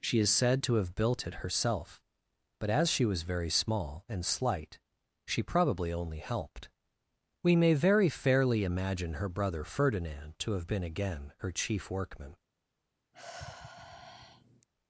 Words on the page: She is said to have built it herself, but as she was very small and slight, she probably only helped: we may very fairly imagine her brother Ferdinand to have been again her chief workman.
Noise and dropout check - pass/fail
fail